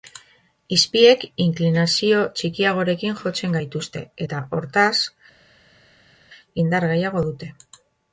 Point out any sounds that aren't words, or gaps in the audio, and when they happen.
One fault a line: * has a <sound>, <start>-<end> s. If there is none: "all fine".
all fine